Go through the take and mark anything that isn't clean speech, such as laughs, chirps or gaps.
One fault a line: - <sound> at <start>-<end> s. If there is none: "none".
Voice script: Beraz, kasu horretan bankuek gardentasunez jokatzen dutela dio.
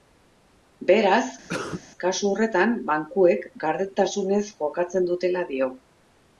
- cough at 1.5-1.8 s